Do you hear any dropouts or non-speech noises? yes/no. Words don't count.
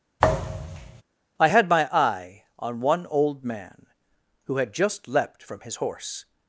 yes